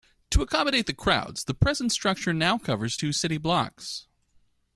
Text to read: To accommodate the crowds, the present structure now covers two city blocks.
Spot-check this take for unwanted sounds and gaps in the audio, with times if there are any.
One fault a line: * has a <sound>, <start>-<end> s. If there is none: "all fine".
all fine